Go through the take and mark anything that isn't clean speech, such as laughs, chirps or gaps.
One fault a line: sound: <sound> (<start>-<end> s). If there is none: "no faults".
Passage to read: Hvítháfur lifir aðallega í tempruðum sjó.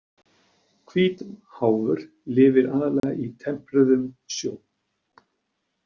sound: dropout (3.0-3.0 s)